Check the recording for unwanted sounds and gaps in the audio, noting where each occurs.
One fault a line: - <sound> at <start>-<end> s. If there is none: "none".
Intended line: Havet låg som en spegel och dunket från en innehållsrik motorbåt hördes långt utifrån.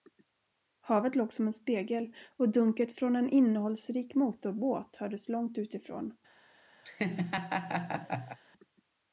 - laugh at 6.8-8.4 s